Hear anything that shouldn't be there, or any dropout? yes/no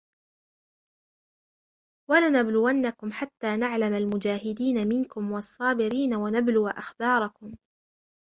no